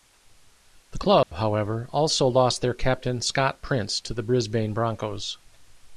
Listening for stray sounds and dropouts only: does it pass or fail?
fail